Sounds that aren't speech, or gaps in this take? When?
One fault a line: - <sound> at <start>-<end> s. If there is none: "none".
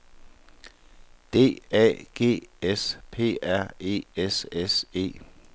none